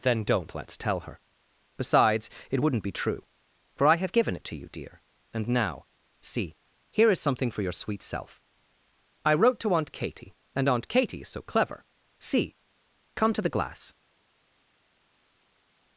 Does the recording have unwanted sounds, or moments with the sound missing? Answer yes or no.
no